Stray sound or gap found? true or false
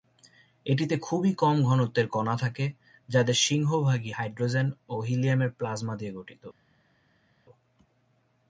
false